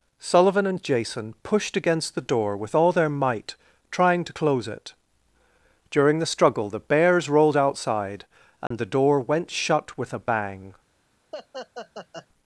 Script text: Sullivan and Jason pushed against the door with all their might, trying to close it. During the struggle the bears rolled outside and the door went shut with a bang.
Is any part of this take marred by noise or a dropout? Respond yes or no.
yes